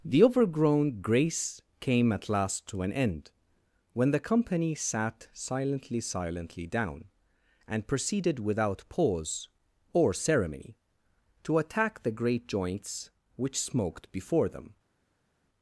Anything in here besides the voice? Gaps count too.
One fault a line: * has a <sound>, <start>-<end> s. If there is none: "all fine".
all fine